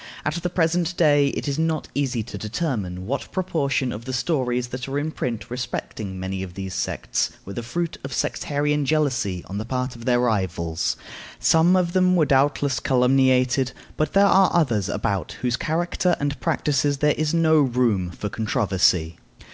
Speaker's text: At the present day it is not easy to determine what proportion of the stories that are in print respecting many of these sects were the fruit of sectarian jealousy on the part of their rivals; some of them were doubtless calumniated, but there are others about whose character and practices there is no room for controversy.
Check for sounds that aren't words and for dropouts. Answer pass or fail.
pass